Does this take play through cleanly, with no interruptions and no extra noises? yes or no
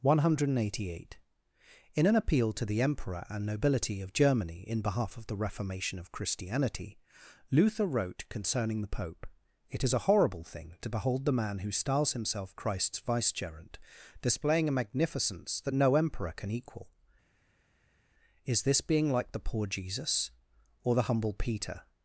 yes